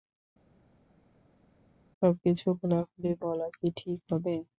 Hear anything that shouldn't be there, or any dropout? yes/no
no